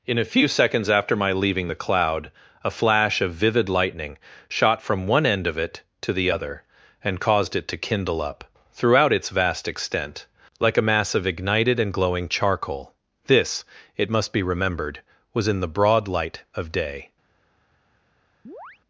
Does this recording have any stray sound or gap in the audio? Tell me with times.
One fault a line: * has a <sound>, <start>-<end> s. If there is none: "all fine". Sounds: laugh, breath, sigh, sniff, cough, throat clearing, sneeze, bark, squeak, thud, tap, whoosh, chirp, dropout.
* has a chirp, 18.4-18.8 s